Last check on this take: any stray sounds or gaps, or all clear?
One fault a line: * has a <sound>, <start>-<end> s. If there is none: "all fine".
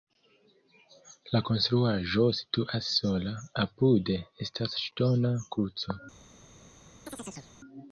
* has a chirp, 7.1-7.5 s